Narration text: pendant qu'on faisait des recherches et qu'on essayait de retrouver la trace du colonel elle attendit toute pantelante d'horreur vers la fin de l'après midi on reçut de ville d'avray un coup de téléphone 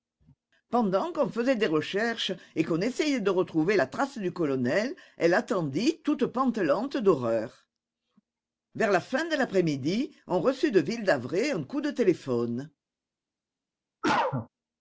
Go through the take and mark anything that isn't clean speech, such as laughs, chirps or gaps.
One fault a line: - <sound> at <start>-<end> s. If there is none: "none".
- cough at 14.0-14.5 s